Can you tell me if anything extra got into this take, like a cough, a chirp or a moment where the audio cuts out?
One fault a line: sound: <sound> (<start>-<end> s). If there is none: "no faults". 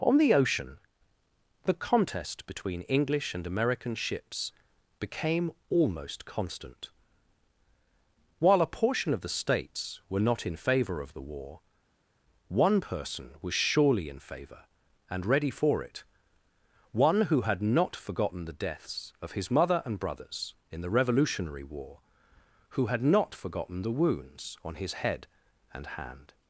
no faults